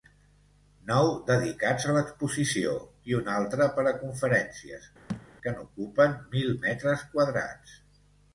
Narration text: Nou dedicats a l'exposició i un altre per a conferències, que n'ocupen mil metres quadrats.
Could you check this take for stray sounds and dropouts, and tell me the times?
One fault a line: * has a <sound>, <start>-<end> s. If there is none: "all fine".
* has a thud, 5.1-5.3 s